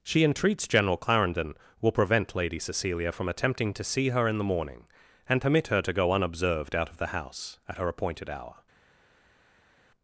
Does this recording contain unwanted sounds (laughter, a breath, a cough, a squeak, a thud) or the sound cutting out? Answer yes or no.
no